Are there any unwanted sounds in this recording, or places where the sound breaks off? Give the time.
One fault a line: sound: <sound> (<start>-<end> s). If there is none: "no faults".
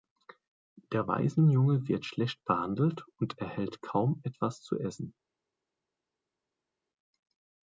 no faults